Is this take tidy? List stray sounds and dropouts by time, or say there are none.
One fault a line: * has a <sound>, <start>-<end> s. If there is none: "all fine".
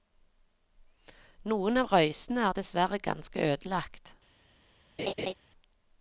* has a laugh, 5.0-5.3 s